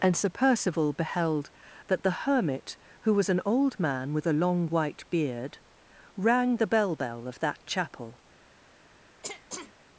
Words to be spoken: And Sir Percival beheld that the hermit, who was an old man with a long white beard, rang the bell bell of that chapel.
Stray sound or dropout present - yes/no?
yes